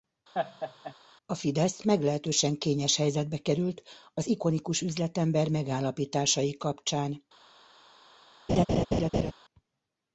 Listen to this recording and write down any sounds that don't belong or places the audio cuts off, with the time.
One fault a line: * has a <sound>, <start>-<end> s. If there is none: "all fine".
* has a laugh, 0.3-0.9 s
* has a laugh, 8.5-9.3 s